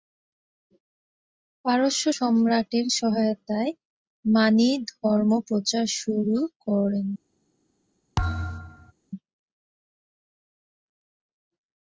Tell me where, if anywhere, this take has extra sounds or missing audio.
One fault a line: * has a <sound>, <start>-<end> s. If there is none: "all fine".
* has a thud, 8.2-8.9 s